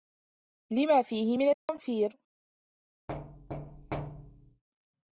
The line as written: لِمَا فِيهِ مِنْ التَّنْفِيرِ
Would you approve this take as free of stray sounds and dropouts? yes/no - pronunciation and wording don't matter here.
no